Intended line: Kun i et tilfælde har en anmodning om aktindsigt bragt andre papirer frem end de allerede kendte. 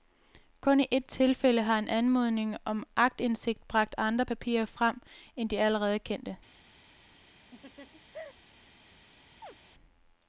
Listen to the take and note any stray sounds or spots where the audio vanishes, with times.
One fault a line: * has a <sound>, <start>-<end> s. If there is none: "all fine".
* has a laugh, 7.5-8.3 s
* has a chirp, 9.4-9.6 s